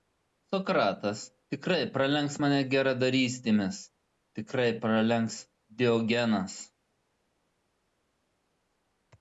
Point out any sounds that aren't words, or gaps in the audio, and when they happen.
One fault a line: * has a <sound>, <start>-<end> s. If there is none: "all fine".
all fine